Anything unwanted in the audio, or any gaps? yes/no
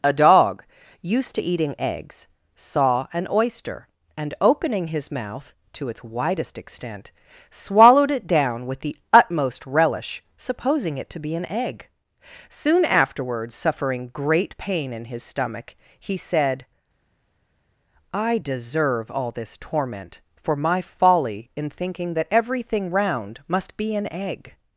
no